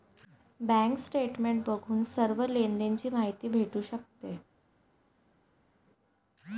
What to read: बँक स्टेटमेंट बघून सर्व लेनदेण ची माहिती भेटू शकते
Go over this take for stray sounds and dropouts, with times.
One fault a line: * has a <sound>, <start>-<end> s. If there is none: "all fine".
all fine